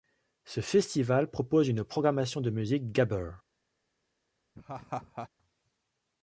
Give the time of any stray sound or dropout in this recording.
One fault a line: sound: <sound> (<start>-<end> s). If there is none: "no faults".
sound: laugh (4.5-5.3 s)